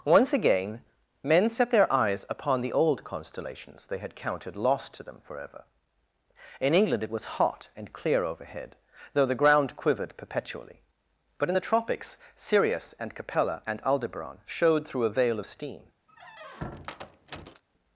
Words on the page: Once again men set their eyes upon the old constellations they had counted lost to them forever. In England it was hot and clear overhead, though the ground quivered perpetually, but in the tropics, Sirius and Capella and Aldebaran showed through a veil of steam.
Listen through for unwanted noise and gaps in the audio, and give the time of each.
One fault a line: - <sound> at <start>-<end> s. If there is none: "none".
- squeak at 16.1-17.6 s